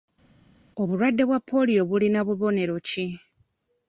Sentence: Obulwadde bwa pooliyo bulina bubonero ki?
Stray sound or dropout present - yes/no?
no